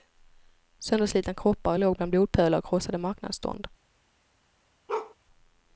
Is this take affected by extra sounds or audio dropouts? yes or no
yes